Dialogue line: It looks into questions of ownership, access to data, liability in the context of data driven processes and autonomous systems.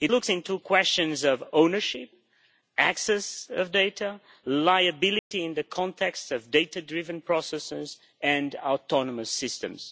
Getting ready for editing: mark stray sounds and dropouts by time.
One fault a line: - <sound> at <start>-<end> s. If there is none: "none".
- dropout at 5.2-5.3 s